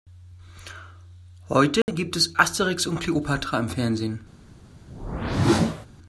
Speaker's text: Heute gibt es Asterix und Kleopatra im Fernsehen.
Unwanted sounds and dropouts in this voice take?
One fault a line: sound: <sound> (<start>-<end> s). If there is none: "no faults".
sound: dropout (1.8-1.9 s)
sound: whoosh (4.9-5.9 s)